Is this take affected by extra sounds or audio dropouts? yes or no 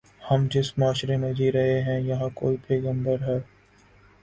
no